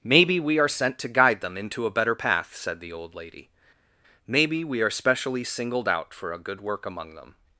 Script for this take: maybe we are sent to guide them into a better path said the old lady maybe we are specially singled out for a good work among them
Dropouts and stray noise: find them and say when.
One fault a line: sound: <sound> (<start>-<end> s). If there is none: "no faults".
no faults